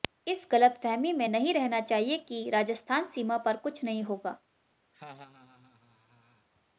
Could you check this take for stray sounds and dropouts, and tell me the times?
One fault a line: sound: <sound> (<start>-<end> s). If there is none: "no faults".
sound: laugh (4.9-6.5 s)